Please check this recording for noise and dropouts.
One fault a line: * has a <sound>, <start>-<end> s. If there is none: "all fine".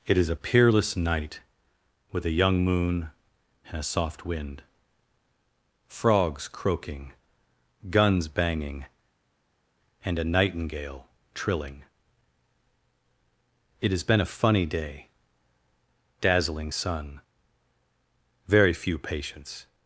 all fine